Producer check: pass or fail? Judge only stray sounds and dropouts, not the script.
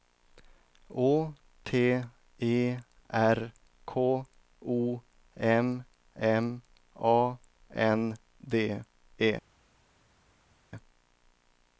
pass